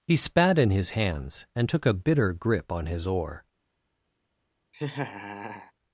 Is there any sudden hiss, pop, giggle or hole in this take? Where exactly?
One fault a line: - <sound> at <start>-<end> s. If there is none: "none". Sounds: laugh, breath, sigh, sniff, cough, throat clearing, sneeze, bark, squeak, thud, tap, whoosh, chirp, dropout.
- laugh at 4.7-5.7 s